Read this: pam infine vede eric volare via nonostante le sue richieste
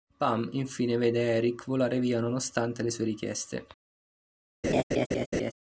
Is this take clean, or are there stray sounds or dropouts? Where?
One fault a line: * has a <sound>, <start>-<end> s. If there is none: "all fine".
* has a laugh, 4.6-5.5 s